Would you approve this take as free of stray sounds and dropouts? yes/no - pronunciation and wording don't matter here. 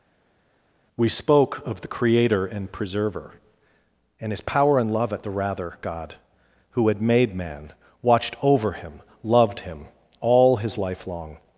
yes